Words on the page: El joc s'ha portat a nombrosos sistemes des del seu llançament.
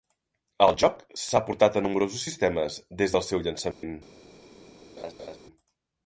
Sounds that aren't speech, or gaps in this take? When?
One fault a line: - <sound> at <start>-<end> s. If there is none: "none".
- dropout at 3.7-3.8 s
- laugh at 5.0-5.4 s